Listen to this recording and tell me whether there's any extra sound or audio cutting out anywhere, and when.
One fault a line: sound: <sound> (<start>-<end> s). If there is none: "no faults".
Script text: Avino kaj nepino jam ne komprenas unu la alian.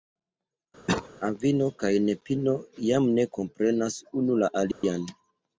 sound: cough (0.9-1.1 s)
sound: dropout (4.7-4.8 s)